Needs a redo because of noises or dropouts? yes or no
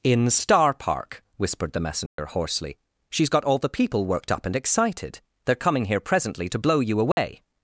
yes